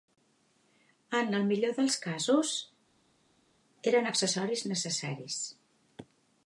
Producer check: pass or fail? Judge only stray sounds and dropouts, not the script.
pass